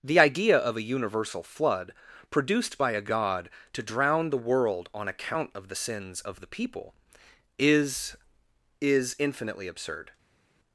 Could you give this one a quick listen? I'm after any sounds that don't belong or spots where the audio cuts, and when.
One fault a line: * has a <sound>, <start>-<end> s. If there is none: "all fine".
all fine